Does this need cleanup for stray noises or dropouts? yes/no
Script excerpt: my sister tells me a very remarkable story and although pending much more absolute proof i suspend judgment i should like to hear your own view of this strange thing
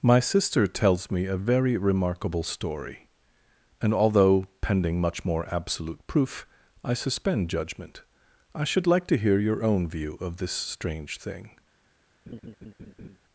yes